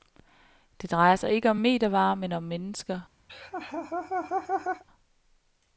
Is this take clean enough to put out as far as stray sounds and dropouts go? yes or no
no